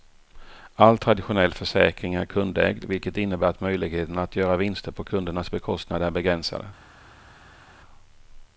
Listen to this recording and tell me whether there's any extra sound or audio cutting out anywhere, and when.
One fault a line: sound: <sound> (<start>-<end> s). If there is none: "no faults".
no faults